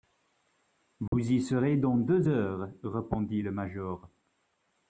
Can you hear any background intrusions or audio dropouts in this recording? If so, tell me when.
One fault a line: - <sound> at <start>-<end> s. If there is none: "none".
- dropout at 1.1-1.1 s